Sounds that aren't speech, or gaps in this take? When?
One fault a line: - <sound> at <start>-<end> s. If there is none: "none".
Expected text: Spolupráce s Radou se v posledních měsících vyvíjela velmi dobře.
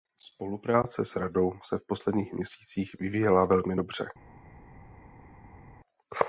none